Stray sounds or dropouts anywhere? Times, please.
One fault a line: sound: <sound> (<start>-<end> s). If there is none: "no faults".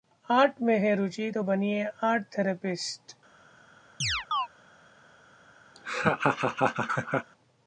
sound: chirp (4.0-4.5 s)
sound: laugh (5.7-7.3 s)